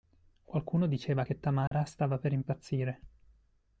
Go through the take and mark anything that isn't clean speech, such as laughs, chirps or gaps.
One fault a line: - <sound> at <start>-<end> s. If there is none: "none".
- dropout at 1.7-1.7 s